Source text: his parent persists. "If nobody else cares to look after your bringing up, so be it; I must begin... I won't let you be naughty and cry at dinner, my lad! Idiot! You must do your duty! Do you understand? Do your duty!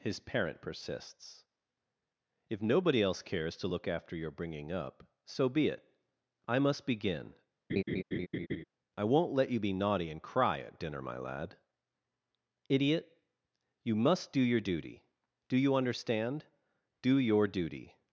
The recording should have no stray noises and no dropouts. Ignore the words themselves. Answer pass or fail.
fail